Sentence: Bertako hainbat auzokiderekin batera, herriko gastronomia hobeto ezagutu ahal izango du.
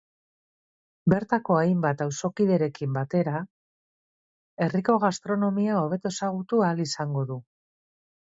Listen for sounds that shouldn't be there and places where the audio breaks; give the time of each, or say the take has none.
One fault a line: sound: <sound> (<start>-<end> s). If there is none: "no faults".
no faults